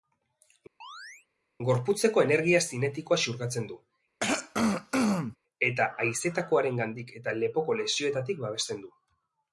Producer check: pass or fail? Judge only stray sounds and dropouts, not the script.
fail